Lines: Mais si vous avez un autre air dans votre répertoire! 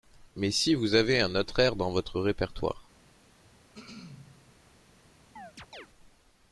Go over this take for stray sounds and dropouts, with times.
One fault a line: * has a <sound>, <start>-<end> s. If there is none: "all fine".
* has a throat clearing, 3.7-4.6 s
* has a chirp, 5.4-5.9 s